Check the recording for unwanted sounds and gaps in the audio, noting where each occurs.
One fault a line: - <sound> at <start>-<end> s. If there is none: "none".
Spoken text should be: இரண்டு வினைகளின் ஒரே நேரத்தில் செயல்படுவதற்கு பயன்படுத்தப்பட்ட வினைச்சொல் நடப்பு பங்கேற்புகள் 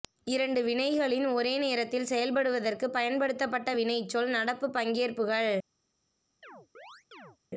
- chirp at 6.4-7.4 s